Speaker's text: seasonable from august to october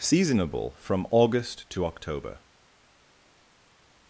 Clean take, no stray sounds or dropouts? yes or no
yes